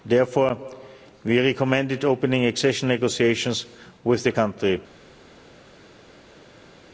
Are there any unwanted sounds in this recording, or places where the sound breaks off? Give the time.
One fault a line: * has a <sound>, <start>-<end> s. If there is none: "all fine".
all fine